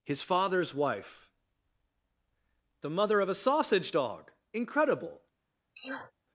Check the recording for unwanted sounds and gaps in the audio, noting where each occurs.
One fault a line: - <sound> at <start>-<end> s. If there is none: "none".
- sneeze at 5.7-6.1 s